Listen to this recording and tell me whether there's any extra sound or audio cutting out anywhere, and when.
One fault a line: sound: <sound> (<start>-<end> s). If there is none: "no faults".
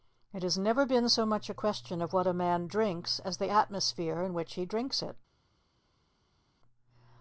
no faults